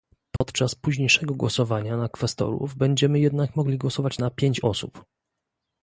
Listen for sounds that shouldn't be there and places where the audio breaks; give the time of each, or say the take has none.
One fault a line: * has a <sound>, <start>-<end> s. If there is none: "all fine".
* has a dropout, 0.4-0.4 s